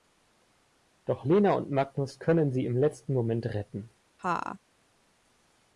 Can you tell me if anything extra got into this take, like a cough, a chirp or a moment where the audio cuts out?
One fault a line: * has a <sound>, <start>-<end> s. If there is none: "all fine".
* has a laugh, 4.2-4.6 s